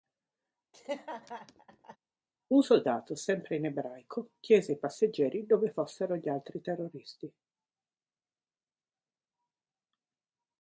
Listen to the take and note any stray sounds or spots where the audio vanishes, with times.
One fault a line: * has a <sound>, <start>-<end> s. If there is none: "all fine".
* has a laugh, 0.7-2.0 s